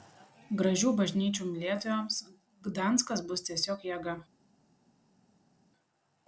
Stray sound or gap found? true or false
false